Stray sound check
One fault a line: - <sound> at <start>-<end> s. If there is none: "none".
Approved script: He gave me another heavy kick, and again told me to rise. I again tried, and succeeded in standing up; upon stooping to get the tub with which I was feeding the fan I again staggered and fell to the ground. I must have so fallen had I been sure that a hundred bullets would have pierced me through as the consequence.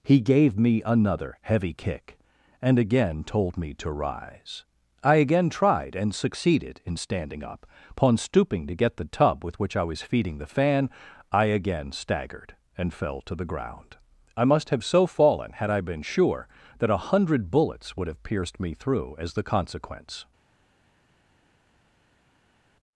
none